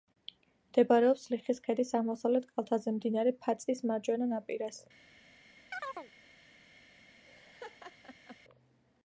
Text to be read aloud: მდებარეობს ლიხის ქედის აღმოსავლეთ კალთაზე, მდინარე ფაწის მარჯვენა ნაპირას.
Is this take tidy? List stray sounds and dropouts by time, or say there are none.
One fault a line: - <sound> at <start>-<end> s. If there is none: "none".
- chirp at 5.7-6.1 s
- laugh at 7.2-8.4 s